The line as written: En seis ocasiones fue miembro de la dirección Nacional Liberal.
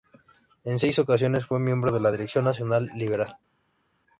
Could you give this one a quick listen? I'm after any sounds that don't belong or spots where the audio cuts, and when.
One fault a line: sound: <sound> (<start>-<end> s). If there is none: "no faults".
no faults